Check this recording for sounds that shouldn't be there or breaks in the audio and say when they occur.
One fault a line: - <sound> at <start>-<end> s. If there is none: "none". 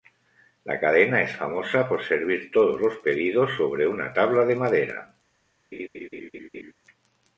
- laugh at 5.7-6.7 s